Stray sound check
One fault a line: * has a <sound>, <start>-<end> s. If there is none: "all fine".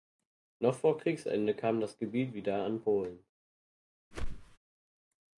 * has a whoosh, 4.1-4.6 s